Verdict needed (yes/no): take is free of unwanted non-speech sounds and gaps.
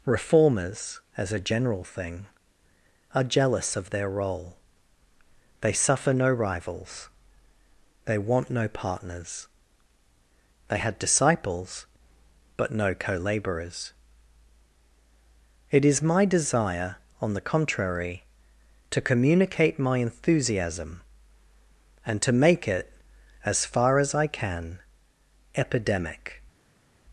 yes